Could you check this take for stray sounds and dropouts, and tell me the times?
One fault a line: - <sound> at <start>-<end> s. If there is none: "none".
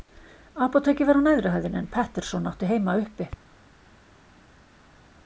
none